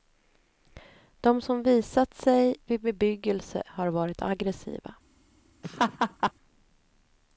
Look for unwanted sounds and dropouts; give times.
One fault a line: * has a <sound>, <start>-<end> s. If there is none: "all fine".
* has a laugh, 5.6-6.3 s